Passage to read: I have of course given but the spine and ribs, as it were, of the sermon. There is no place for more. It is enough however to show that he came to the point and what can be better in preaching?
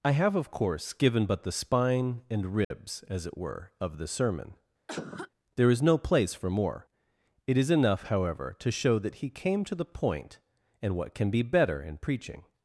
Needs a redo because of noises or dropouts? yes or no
yes